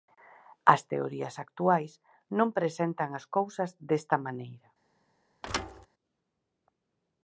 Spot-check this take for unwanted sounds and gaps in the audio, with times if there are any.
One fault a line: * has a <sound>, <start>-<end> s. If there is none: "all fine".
* has a thud, 5.4-5.9 s